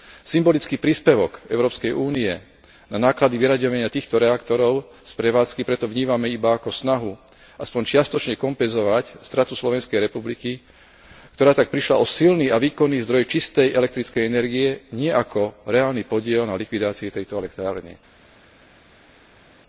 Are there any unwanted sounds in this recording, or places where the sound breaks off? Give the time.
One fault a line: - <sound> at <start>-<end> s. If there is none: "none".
none